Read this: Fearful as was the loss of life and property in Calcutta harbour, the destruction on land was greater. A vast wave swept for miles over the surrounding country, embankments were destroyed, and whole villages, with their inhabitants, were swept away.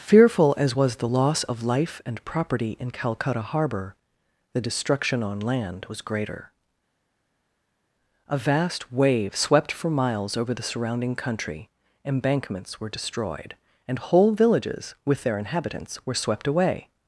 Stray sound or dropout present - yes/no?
no